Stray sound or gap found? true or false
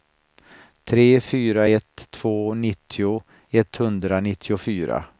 false